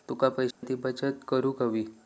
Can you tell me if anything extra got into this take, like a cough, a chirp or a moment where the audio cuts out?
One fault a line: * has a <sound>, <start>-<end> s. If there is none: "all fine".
* has a dropout, 0.5-0.6 s